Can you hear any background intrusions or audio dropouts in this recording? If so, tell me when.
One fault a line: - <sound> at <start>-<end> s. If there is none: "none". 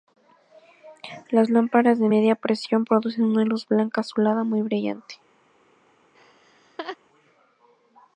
- laugh at 6.1-7.0 s